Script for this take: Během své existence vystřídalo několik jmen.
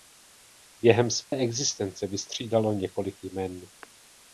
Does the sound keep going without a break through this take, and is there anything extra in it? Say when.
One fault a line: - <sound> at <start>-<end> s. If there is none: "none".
- dropout at 1.2-1.3 s